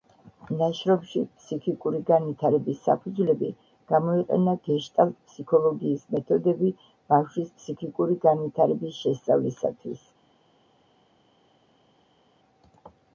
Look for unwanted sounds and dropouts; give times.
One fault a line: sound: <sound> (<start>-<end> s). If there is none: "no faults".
no faults